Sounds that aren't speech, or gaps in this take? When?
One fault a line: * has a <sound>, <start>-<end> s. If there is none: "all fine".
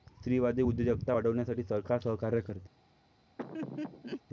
* has a laugh, 3.4-4.2 s